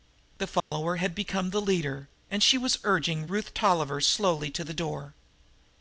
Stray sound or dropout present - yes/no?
yes